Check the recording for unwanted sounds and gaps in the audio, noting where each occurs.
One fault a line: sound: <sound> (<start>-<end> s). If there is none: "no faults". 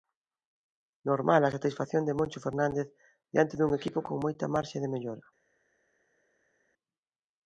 no faults